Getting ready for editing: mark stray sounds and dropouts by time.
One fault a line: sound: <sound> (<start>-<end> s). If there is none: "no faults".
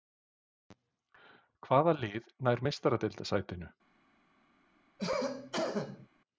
sound: cough (5.0-6.1 s)